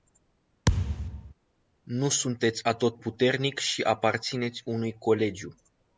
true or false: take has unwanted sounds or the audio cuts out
true